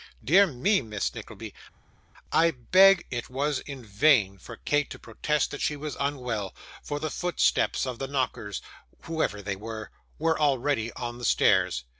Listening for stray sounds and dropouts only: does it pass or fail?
pass